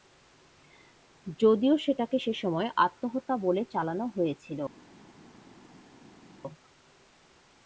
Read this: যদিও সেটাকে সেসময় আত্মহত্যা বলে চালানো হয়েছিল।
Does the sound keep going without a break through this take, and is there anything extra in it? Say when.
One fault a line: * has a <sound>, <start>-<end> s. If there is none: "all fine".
all fine